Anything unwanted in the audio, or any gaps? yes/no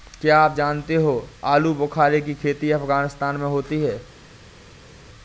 no